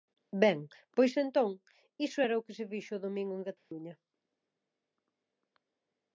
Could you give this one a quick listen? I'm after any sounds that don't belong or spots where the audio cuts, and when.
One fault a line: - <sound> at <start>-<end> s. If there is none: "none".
- dropout at 3.6-3.7 s